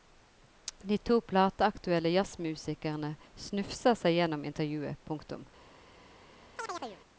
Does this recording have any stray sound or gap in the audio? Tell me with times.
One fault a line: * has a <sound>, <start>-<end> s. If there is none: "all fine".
* has a chirp, 6.6-7.0 s